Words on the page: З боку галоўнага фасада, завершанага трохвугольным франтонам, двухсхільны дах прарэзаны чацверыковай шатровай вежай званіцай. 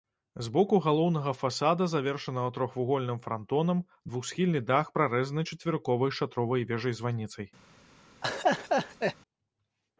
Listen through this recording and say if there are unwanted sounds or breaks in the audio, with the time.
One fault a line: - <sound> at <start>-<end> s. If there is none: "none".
- laugh at 8.2-9.2 s